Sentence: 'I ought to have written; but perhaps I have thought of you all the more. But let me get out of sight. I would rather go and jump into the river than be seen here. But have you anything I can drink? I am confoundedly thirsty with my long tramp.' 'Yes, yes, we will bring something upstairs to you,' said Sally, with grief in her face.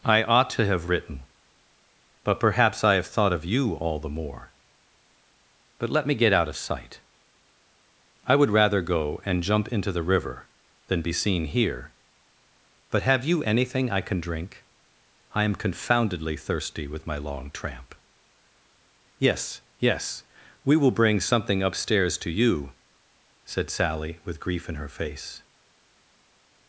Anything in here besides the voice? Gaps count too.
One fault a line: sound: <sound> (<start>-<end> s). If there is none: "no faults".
no faults